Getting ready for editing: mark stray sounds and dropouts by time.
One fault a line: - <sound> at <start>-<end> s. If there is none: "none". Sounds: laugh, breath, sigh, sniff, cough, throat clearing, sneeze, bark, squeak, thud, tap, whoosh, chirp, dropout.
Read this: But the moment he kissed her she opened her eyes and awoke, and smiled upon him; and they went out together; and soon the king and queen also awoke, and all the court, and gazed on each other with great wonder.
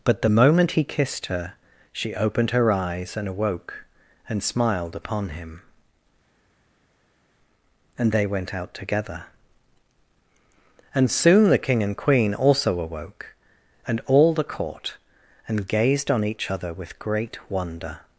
none